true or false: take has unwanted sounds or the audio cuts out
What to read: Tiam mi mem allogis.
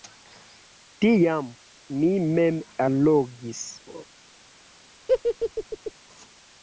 true